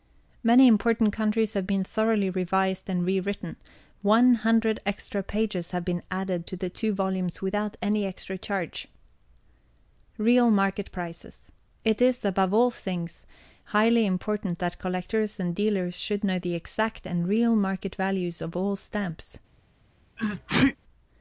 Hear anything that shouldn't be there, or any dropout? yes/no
yes